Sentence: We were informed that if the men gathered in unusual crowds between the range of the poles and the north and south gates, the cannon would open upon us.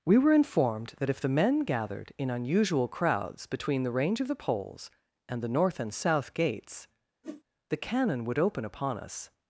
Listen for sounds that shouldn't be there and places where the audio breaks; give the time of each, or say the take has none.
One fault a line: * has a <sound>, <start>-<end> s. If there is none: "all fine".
* has a whoosh, 7.2-7.4 s